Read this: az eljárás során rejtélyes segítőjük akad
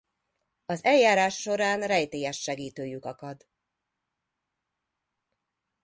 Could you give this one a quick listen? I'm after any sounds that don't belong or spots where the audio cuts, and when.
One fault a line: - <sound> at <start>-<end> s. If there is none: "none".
none